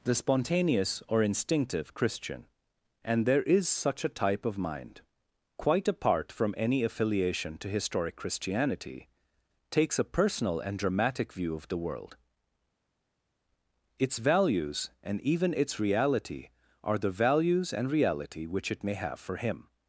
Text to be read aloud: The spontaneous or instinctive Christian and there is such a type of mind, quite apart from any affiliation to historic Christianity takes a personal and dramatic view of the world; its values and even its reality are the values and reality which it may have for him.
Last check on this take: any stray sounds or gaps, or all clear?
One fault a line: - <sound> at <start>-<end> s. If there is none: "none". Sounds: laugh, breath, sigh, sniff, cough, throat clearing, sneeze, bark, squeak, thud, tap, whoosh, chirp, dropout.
none